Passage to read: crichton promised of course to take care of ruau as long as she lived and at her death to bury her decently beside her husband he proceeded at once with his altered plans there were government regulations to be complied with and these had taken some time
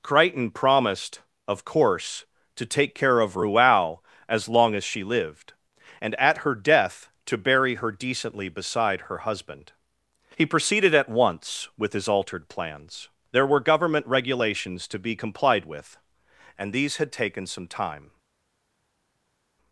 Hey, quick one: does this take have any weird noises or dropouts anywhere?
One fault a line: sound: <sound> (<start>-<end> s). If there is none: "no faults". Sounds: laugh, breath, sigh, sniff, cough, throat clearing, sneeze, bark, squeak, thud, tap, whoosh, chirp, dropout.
no faults